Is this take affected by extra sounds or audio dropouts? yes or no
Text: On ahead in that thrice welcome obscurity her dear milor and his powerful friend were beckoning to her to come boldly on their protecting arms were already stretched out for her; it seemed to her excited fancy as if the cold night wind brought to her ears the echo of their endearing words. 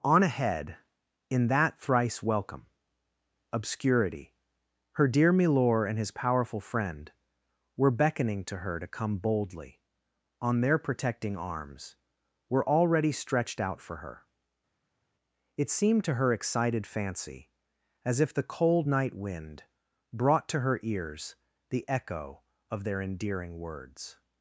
no